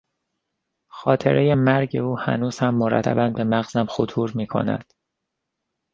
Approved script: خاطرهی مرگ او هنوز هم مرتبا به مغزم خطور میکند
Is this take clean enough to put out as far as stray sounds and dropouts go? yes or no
yes